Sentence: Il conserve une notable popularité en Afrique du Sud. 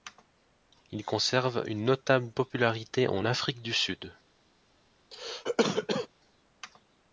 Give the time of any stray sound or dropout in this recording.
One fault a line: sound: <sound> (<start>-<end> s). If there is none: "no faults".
sound: cough (5.1-6.1 s)